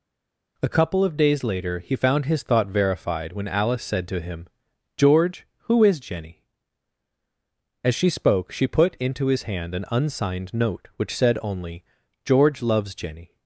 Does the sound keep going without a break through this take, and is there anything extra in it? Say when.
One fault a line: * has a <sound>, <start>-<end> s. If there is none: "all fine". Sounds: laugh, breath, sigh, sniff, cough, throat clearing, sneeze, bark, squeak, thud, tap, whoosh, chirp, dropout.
all fine